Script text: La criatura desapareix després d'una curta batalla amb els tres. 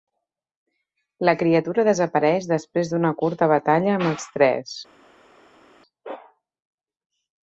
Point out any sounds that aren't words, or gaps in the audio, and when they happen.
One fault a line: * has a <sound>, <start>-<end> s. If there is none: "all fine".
all fine